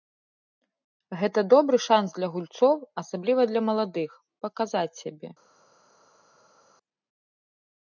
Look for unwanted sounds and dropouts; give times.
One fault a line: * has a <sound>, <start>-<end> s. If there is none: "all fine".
all fine